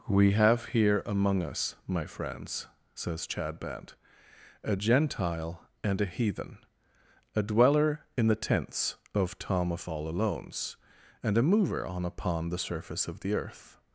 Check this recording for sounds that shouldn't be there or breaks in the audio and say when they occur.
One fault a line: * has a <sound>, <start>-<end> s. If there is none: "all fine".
all fine